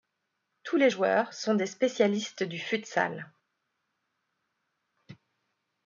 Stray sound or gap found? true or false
false